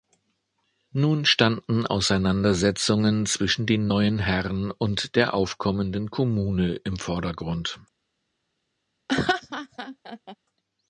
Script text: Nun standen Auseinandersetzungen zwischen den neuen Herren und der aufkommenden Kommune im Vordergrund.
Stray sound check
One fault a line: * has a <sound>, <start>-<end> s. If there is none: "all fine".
* has a laugh, 9.1-10.4 s